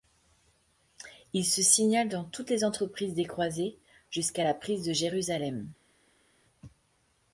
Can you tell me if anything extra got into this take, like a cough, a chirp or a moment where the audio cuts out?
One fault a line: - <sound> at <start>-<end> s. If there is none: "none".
none